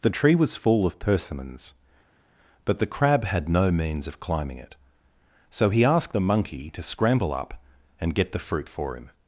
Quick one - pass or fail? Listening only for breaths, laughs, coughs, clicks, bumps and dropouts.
pass